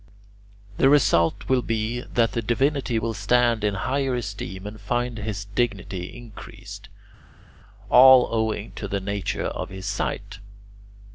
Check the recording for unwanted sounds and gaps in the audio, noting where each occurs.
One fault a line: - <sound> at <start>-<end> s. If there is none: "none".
none